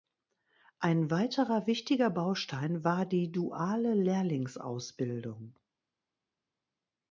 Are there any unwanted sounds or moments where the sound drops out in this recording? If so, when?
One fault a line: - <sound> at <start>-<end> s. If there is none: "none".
none